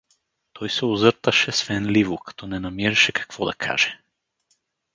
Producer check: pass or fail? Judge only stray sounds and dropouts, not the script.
pass